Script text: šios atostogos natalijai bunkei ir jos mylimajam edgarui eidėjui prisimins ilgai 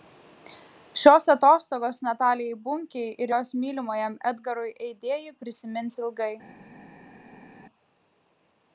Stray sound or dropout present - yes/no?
no